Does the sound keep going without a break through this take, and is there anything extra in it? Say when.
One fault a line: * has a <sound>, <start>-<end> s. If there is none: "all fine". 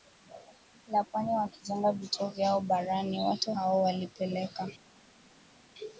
all fine